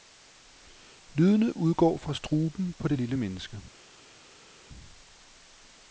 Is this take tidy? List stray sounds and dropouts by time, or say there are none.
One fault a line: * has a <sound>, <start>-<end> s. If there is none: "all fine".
all fine